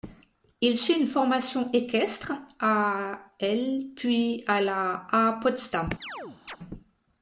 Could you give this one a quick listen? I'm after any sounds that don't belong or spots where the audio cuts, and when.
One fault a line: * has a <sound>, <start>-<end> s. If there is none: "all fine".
* has a chirp, 6.0-6.6 s